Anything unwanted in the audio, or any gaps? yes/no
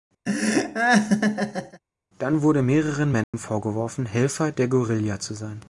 yes